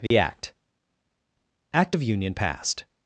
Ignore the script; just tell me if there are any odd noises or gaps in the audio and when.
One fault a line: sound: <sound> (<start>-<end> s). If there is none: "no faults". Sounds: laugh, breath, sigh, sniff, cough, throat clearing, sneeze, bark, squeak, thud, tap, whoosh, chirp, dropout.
sound: dropout (0.1-0.1 s)